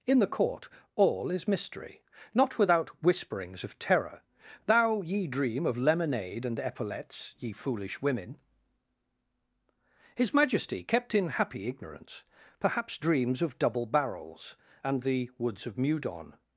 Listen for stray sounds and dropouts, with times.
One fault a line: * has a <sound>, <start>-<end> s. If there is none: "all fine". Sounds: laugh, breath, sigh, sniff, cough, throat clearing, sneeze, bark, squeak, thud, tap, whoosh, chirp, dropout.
all fine